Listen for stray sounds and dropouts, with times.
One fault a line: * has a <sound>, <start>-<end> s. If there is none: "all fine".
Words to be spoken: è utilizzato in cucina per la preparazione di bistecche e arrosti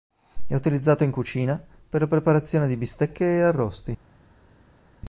all fine